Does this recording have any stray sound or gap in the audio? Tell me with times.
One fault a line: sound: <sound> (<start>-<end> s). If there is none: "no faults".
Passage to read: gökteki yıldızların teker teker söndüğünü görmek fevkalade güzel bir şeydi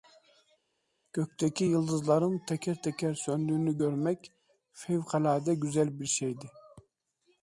no faults